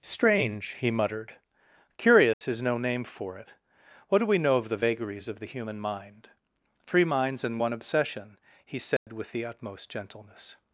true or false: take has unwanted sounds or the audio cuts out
true